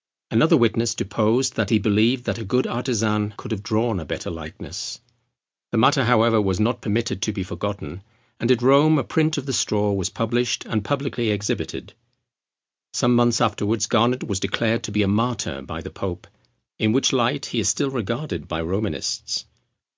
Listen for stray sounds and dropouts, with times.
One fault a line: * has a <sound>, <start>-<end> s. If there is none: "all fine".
all fine